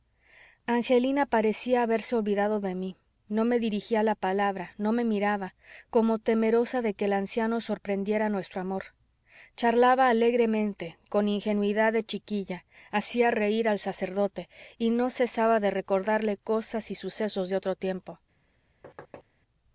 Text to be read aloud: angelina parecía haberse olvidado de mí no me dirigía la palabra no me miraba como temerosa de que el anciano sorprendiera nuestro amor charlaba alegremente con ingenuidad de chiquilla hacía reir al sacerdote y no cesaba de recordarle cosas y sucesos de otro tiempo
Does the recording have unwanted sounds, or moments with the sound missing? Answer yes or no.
yes